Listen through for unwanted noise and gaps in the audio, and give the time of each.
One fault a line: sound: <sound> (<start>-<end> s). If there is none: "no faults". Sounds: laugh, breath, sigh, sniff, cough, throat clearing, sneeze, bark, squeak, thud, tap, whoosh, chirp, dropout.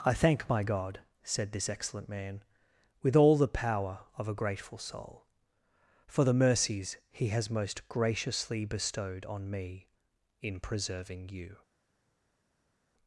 no faults